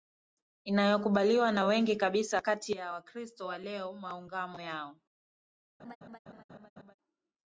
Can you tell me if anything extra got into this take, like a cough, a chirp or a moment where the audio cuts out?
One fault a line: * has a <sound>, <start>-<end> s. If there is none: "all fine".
* has a laugh, 5.8-6.9 s